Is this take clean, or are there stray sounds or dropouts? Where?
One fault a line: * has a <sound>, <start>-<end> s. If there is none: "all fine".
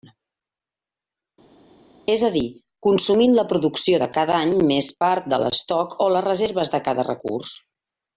all fine